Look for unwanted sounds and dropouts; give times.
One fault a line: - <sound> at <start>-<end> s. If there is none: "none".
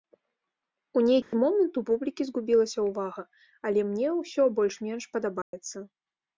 - dropout at 1.2-1.3 s
- dropout at 5.4-5.5 s